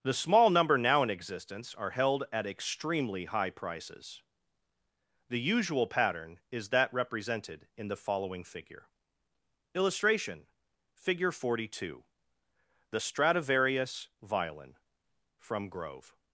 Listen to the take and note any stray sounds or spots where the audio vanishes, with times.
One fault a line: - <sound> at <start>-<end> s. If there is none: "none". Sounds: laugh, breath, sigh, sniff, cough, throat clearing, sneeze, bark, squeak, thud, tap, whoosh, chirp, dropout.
none